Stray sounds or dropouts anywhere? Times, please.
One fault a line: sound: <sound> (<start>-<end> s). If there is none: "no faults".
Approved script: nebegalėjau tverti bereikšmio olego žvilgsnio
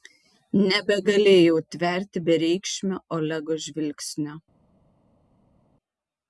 no faults